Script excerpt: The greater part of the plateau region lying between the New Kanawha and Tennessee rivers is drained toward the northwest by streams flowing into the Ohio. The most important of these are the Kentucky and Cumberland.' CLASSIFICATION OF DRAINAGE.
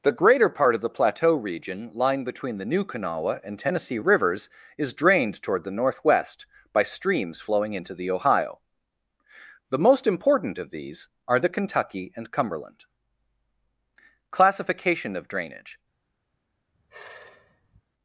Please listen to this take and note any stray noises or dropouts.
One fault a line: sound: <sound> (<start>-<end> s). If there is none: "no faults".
sound: sigh (16.7-17.8 s)